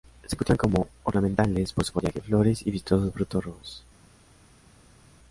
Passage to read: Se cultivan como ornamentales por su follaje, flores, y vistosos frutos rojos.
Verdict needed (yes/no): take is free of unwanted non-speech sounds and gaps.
yes